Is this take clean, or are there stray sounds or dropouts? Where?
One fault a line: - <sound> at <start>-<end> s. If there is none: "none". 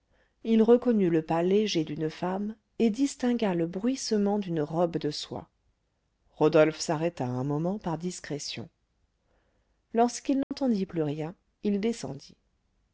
- dropout at 10.4-10.5 s